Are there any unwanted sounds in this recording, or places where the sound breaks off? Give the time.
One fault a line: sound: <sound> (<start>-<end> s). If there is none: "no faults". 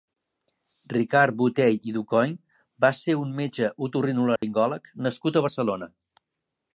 sound: dropout (4.4-4.4 s)